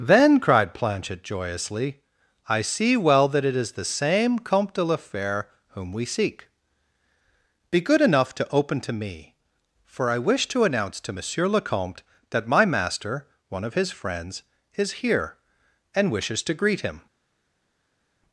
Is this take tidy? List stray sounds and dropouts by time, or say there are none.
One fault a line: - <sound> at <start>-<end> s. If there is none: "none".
none